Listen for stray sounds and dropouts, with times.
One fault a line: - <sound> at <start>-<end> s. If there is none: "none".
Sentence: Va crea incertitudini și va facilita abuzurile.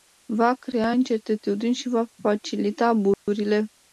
- dropout at 3.1-3.3 s